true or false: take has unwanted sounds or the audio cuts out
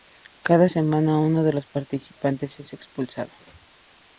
false